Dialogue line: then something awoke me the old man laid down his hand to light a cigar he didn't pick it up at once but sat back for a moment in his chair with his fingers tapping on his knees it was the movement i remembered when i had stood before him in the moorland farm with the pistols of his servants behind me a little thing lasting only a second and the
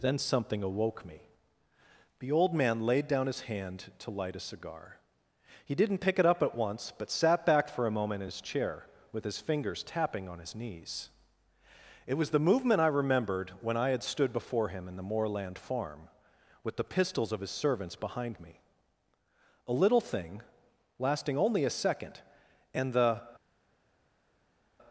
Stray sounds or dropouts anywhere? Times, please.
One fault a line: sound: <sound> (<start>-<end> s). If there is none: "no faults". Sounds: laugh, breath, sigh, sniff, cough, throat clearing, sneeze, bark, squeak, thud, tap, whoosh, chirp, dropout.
no faults